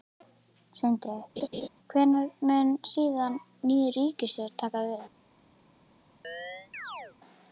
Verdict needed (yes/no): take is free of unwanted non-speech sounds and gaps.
no